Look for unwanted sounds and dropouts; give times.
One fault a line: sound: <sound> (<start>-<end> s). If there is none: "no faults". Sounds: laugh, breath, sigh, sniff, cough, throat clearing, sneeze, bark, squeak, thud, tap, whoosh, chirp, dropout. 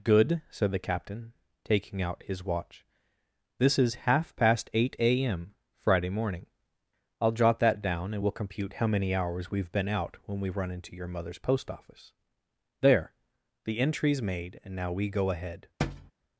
sound: thud (15.8-16.1 s)